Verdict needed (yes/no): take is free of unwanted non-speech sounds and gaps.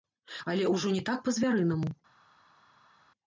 yes